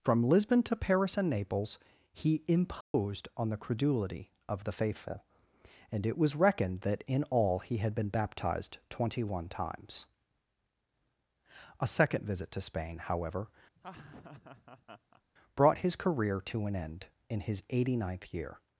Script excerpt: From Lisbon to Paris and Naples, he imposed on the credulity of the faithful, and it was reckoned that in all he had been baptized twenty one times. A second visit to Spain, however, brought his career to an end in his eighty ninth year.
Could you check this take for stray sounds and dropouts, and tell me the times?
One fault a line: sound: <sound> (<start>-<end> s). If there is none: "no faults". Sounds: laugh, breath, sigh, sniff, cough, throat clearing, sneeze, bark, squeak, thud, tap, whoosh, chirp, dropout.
sound: dropout (2.8-2.9 s)
sound: laugh (13.8-15.2 s)